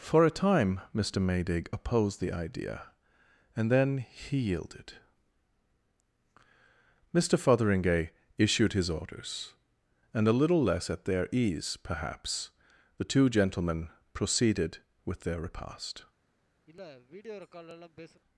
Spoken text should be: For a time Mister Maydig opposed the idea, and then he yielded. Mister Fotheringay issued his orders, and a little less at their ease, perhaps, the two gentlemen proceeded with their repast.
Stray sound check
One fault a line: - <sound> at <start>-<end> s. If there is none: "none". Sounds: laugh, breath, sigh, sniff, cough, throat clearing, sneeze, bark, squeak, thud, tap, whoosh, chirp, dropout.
- sniff at 16.7-18.2 s